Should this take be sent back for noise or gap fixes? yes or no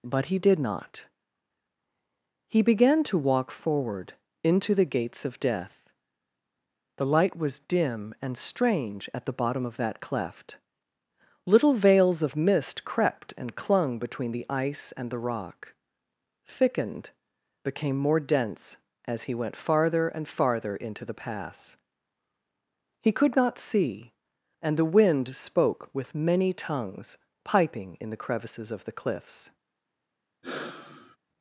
yes